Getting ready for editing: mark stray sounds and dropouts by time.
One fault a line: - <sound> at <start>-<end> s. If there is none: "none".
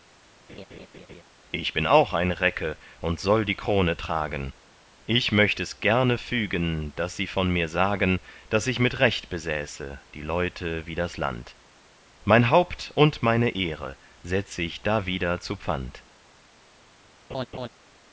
- laugh at 0.5-1.2 s
- laugh at 17.3-17.7 s